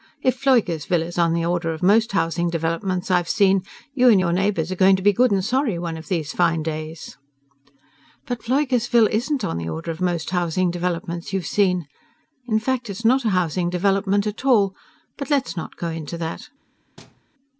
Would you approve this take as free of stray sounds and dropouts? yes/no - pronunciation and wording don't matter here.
no